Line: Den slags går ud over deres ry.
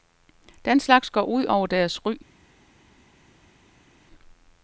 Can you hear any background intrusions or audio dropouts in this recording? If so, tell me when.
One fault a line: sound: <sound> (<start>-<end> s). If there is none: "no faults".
no faults